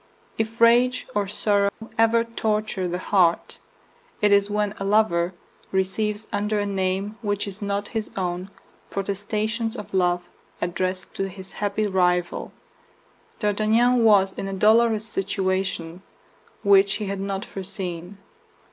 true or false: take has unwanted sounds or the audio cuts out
true